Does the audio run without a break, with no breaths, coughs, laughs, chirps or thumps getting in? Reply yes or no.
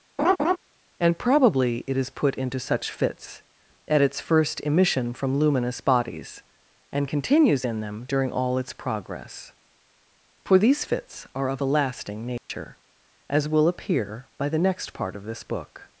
no